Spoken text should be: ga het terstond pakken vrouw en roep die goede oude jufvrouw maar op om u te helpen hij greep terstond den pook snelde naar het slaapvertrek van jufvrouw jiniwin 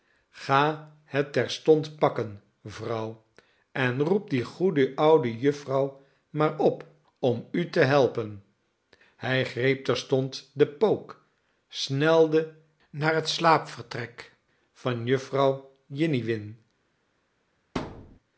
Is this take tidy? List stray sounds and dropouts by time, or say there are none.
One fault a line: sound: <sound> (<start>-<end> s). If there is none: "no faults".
sound: thud (17.8-18.2 s)